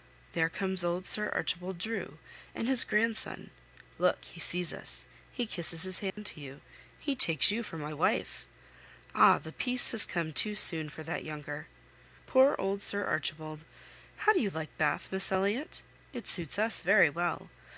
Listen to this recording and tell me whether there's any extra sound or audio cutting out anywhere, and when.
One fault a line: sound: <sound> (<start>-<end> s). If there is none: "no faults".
sound: dropout (6.1-6.2 s)